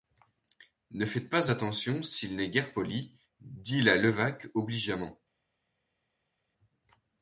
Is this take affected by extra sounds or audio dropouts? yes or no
no